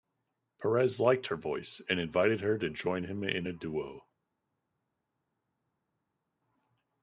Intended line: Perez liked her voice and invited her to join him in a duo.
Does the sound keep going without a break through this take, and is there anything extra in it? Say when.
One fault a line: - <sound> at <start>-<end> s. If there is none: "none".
none